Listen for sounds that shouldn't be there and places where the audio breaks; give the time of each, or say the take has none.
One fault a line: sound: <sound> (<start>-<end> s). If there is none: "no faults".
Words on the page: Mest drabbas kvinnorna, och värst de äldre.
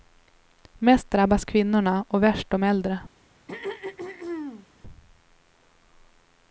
sound: throat clearing (3.5-4.7 s)